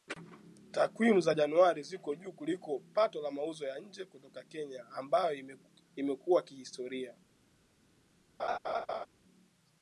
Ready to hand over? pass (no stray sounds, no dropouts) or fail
fail